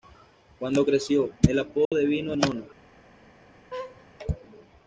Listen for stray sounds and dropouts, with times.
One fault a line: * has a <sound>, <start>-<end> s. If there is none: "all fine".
* has a dropout, 1.8-1.9 s
* has a laugh, 3.7-4.1 s